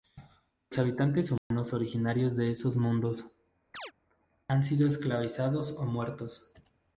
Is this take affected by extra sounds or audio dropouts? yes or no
yes